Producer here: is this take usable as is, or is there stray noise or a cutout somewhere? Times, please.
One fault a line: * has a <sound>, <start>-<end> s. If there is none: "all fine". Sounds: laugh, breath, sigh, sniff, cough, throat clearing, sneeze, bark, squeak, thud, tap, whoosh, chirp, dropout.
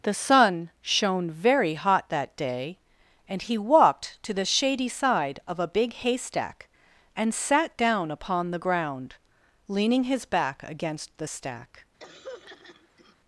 * has a throat clearing, 12.0-13.2 s